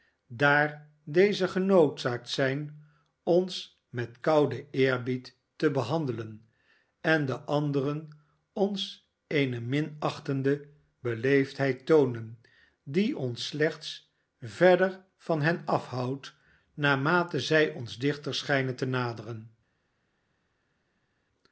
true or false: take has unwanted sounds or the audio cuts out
false